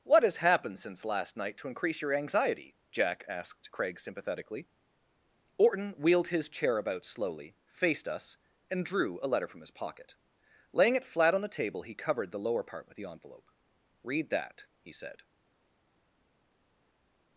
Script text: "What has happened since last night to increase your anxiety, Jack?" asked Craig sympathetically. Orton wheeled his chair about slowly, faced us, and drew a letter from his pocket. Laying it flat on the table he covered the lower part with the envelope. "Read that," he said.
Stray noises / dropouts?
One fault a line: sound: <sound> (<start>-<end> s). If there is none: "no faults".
no faults